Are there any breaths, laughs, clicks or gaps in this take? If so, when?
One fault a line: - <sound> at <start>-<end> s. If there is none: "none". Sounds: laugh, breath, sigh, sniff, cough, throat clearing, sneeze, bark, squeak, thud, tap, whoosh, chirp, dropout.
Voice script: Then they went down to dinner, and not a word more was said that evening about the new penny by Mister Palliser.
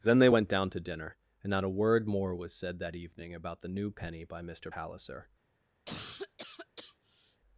- cough at 5.9-7.4 s